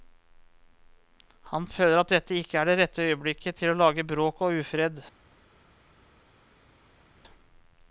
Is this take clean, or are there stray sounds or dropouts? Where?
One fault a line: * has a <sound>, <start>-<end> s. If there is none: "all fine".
all fine